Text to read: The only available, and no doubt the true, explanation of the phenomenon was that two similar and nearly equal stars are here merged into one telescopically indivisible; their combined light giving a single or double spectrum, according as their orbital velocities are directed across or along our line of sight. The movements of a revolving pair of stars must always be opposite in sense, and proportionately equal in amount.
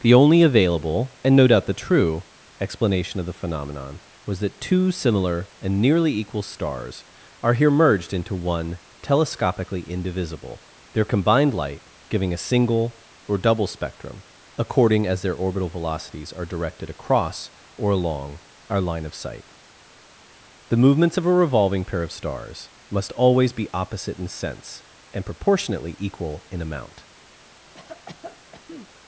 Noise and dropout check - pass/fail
fail